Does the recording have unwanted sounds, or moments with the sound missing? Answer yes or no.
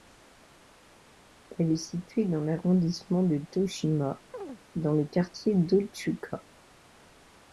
yes